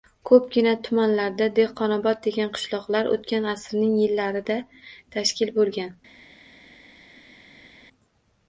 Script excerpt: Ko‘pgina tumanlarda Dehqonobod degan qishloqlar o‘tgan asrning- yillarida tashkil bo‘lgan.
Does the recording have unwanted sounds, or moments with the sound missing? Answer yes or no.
no